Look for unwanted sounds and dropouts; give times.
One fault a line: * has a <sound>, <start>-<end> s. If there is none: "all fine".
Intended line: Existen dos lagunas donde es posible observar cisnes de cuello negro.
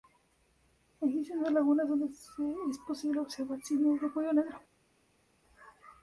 all fine